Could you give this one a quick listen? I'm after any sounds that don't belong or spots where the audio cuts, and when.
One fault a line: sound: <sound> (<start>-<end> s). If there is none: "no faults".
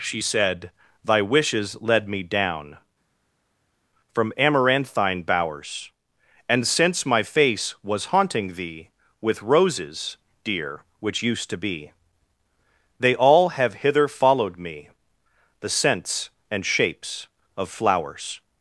no faults